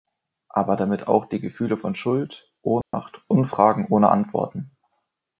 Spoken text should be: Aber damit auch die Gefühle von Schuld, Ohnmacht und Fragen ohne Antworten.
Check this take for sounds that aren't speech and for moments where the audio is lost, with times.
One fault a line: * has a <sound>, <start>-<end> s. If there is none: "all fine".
* has a dropout, 2.8-2.9 s